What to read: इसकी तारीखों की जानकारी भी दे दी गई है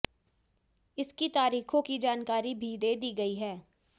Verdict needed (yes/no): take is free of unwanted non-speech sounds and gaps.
yes